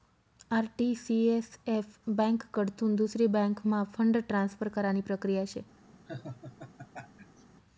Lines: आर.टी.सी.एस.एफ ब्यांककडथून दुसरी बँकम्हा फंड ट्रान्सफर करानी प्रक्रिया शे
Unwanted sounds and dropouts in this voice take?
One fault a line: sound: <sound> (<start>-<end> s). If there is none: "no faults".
sound: laugh (6.1-7.4 s)